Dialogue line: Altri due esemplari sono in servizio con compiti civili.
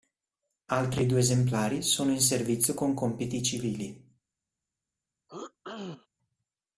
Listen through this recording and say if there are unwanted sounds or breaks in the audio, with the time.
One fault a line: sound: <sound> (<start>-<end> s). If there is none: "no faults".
sound: throat clearing (5.3-6.1 s)